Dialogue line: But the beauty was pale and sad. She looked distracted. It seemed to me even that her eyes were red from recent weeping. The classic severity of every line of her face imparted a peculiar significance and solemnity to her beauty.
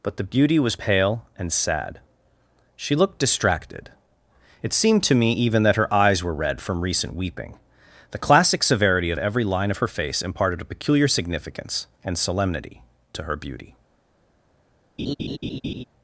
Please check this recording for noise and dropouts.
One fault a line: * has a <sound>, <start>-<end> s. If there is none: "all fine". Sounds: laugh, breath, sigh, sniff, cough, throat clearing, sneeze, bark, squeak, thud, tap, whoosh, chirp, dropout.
* has a laugh, 15.0-15.8 s